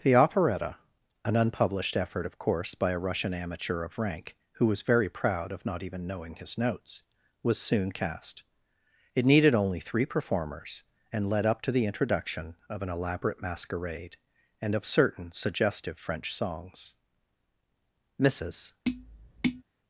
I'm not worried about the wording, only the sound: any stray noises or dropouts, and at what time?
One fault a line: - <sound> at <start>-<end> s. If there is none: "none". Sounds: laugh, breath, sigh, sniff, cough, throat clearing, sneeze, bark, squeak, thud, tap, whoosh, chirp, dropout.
- tap at 18.9-19.6 s